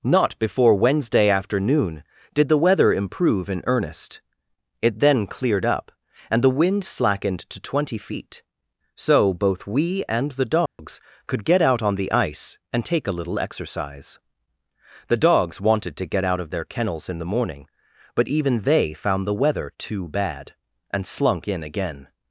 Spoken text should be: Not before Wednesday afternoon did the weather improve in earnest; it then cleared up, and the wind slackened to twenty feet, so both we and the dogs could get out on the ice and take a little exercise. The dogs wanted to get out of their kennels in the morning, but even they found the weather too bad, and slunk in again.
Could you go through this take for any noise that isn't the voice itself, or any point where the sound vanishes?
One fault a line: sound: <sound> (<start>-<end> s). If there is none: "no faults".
sound: dropout (10.7-10.8 s)